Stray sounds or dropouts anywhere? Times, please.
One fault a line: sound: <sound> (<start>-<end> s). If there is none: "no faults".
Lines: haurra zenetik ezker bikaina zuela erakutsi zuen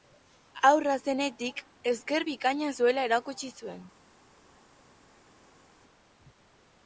no faults